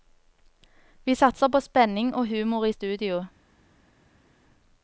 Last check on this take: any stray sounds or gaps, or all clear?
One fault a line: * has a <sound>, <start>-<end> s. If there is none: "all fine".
all fine